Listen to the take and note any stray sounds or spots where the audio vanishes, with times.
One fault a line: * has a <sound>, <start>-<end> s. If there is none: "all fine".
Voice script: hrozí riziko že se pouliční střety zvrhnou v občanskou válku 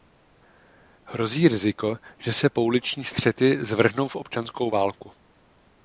all fine